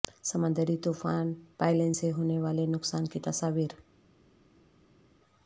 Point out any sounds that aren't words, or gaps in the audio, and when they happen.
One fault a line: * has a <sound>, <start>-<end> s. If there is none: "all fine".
all fine